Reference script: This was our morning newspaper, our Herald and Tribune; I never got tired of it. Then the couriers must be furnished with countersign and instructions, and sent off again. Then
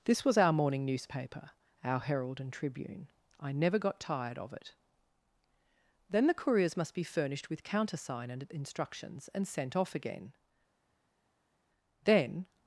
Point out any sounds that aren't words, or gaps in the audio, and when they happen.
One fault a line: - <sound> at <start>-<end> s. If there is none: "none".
none